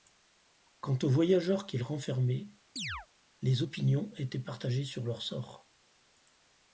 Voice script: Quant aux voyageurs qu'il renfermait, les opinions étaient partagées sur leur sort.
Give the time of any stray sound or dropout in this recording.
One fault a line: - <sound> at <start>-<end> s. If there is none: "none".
- chirp at 2.8-3.1 s